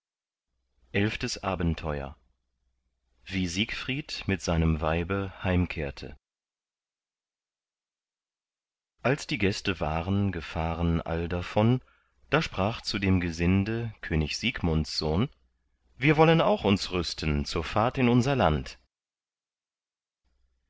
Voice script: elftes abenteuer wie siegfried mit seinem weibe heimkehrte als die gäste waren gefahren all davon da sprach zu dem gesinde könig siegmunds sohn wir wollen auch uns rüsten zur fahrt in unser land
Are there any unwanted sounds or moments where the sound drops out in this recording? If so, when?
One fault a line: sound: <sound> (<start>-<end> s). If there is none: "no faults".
no faults